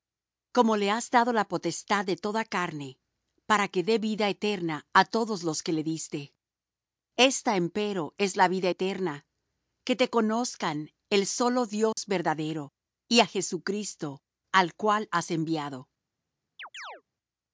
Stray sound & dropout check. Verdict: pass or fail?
fail